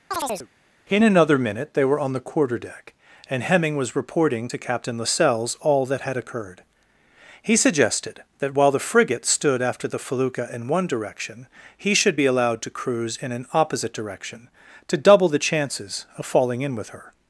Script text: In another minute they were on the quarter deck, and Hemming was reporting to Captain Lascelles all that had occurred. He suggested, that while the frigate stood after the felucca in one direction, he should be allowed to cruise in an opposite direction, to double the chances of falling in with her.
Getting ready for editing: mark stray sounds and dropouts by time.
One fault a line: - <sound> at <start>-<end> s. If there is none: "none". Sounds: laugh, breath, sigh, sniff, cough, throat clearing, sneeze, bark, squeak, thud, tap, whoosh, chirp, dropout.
- chirp at 0.1-0.5 s